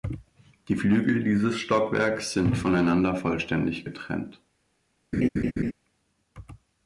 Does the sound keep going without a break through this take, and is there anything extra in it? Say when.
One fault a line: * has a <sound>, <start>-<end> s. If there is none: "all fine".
* has a laugh, 5.1-5.7 s